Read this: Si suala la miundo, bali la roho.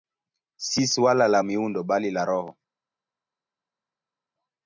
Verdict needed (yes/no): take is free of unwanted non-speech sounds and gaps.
yes